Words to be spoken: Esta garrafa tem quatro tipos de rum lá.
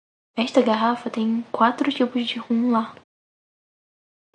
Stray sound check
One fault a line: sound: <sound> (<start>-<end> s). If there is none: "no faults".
no faults